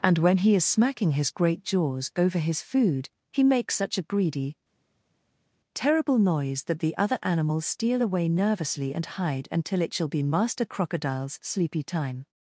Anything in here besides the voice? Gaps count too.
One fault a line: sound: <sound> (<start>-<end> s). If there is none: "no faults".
no faults